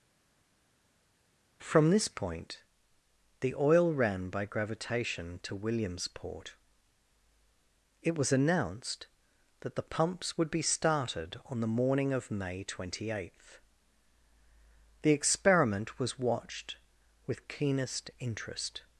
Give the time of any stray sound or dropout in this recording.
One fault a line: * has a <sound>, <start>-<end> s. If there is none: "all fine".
all fine